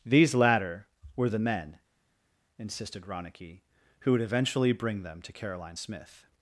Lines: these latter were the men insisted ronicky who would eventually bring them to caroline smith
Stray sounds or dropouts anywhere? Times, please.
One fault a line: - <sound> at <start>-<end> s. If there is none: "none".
none